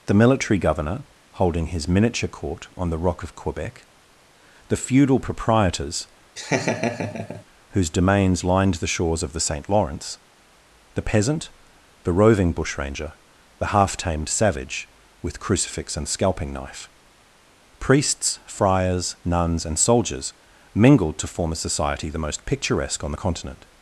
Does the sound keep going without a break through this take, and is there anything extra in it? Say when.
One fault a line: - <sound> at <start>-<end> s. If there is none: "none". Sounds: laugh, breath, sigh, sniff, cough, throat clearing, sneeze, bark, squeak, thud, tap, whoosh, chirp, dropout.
- laugh at 6.4-7.4 s